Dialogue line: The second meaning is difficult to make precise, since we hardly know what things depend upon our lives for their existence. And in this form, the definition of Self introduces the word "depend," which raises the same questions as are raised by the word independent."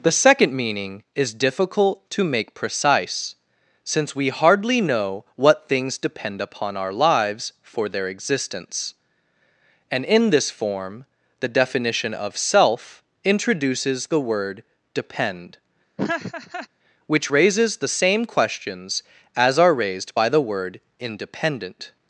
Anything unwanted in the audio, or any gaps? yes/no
yes